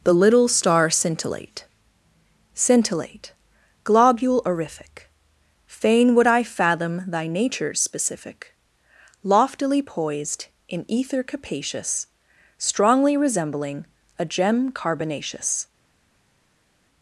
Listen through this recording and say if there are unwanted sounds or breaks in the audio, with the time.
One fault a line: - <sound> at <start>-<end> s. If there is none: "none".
none